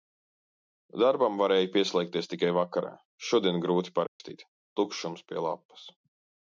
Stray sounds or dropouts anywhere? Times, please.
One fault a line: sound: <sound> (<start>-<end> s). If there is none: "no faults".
sound: dropout (4.1-4.2 s)